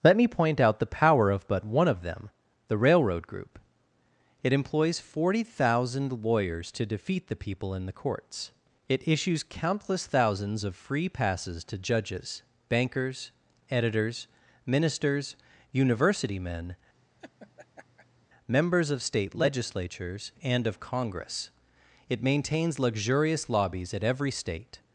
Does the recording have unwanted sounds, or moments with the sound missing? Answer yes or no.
yes